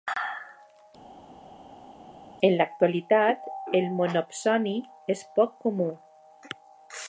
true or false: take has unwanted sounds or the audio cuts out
false